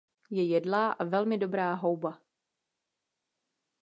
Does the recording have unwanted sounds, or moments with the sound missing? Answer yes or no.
no